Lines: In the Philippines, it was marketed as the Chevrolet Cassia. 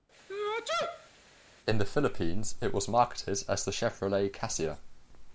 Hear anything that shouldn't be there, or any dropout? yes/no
yes